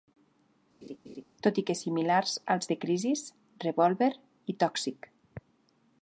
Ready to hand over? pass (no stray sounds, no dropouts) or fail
fail